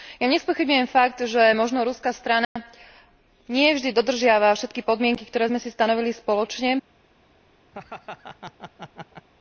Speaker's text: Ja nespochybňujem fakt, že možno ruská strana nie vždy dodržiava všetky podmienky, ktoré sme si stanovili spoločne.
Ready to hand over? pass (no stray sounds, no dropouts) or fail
fail